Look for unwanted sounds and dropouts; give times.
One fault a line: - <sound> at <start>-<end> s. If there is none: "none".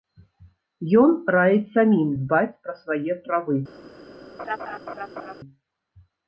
- laugh at 4.4-5.3 s